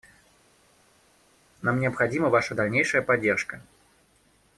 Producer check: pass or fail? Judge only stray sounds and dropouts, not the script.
pass